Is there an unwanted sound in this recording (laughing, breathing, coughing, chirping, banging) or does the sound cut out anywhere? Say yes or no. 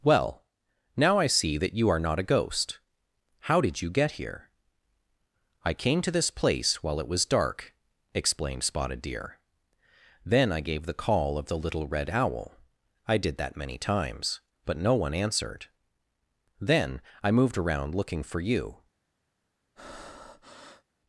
yes